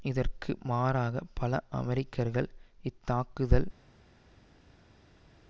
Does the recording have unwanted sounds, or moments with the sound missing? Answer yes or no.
no